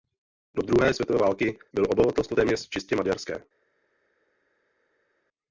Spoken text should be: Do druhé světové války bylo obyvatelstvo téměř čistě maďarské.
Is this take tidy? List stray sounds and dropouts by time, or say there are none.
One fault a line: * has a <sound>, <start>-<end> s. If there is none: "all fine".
all fine